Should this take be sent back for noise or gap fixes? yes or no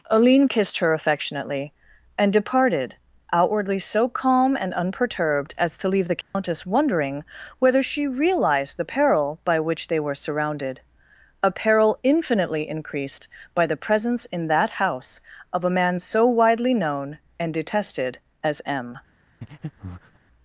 yes